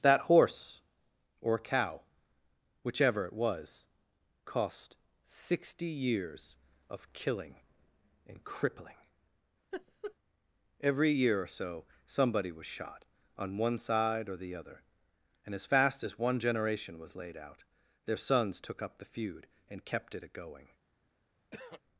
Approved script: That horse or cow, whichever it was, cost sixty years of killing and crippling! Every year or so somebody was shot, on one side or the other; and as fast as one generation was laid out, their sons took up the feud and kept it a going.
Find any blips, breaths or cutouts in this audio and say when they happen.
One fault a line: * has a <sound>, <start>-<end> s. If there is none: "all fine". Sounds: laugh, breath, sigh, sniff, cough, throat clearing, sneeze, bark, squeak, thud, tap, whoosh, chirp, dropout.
* has a laugh, 9.7-10.2 s
* has a throat clearing, 21.5-21.8 s